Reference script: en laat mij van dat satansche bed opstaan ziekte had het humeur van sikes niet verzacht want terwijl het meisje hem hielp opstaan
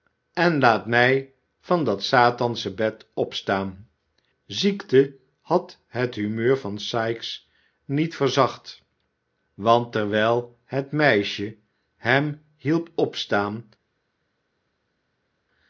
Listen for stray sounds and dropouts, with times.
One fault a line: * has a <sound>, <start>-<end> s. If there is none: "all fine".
all fine